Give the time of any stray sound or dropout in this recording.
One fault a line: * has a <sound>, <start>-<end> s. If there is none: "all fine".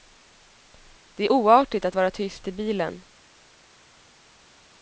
all fine